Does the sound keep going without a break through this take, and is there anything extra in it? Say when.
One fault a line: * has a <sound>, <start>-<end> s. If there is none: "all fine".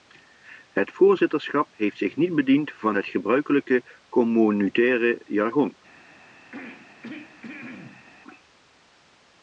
* has a throat clearing, 6.5-8.1 s